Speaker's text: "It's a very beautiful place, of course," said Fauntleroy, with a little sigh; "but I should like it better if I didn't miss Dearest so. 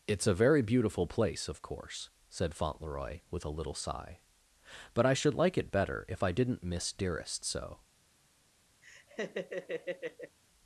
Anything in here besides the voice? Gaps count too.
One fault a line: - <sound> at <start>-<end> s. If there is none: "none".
- laugh at 8.8-10.4 s